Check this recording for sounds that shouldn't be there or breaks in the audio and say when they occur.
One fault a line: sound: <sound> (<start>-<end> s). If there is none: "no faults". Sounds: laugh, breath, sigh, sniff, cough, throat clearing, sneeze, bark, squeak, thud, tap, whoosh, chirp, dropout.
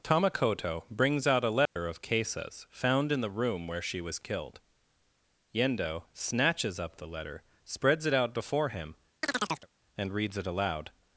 sound: dropout (1.7-1.8 s)
sound: chirp (9.2-9.7 s)